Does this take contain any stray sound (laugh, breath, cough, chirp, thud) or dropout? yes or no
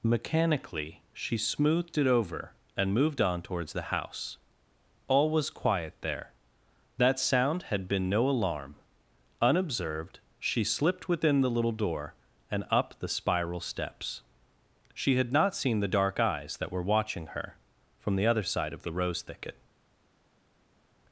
no